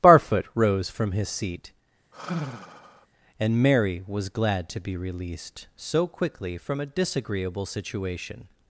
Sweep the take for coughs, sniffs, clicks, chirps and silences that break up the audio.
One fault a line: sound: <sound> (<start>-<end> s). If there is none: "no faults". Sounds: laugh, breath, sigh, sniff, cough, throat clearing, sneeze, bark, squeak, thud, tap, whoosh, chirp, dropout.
sound: sigh (2.1-3.1 s)